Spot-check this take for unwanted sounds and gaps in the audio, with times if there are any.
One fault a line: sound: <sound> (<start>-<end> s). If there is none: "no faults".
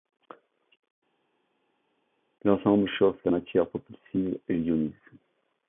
no faults